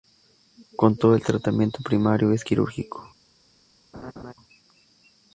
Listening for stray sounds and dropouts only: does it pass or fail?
fail